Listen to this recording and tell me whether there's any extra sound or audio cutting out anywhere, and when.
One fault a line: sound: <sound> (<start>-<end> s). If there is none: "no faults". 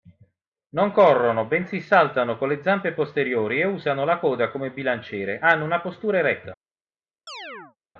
sound: chirp (7.3-7.8 s)